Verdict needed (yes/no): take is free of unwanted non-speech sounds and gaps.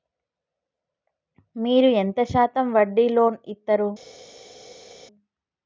yes